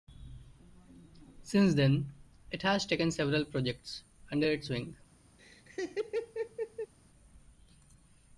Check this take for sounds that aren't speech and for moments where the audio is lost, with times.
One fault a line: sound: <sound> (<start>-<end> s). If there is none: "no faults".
sound: laugh (5.4-6.9 s)